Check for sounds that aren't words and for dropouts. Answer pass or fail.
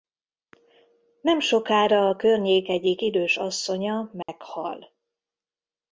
fail